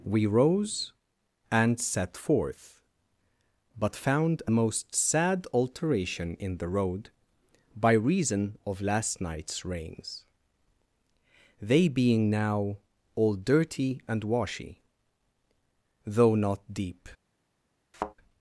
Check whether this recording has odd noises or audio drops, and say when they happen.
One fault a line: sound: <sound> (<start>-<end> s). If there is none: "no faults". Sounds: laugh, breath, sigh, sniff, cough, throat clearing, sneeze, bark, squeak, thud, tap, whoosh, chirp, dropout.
sound: thud (17.9-18.1 s)